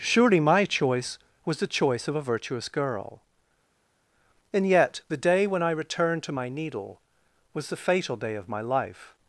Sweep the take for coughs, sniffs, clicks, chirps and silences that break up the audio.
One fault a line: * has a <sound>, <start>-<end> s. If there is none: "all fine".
all fine